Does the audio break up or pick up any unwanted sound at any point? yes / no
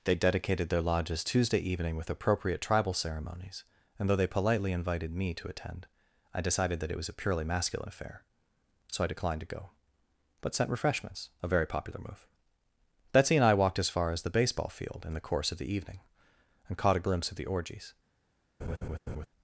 yes